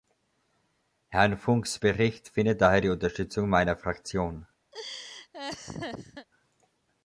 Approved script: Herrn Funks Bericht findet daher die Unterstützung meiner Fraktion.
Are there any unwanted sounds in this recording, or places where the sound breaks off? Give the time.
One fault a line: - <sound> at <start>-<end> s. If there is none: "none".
- laugh at 4.7-6.3 s